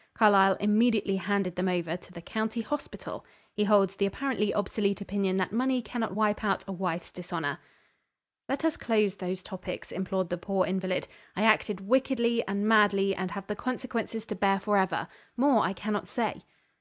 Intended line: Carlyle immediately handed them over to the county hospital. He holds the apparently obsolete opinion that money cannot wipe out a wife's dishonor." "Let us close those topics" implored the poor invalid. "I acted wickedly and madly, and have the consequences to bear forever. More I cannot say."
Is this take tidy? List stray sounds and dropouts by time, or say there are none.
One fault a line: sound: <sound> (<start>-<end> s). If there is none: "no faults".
no faults